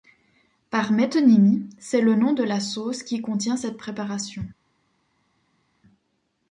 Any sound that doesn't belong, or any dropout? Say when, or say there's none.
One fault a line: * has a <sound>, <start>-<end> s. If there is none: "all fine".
all fine